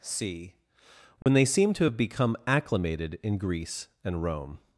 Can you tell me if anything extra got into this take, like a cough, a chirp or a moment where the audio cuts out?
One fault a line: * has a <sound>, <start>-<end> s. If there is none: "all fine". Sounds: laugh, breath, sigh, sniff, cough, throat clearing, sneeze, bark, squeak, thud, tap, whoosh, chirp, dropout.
* has a dropout, 1.2-1.3 s